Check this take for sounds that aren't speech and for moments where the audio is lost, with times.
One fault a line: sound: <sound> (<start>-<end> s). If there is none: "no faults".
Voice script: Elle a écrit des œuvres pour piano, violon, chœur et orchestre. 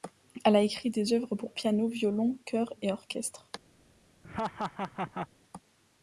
sound: laugh (4.2-5.3 s)